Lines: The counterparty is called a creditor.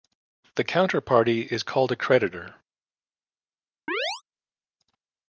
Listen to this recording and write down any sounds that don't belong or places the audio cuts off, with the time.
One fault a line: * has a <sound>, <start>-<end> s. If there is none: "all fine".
* has a chirp, 3.9-4.2 s